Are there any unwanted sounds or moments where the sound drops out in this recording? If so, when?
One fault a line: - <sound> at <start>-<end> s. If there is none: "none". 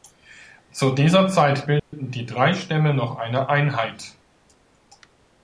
- dropout at 1.8-1.9 s